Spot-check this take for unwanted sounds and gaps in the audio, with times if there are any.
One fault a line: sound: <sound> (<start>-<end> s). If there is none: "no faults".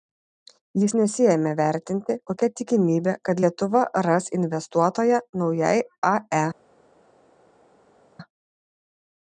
no faults